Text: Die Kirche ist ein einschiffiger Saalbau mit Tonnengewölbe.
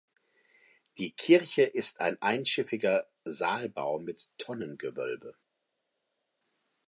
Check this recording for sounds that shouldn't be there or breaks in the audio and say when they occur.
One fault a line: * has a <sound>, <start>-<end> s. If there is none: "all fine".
all fine